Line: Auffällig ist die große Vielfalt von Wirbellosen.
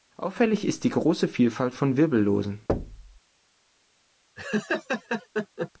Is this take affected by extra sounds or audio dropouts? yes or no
yes